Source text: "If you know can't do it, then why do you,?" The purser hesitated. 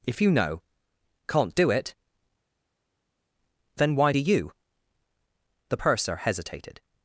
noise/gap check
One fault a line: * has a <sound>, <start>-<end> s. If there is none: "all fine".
all fine